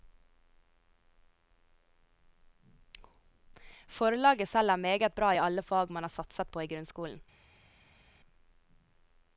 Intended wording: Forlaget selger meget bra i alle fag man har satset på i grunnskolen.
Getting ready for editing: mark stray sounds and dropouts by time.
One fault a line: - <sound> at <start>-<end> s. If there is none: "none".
none